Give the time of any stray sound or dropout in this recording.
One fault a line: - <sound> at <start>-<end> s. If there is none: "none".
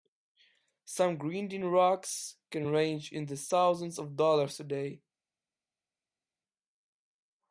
none